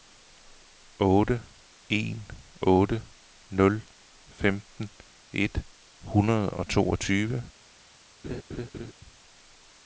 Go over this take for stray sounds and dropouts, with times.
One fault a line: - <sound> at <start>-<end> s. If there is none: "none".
- laugh at 8.2-8.9 s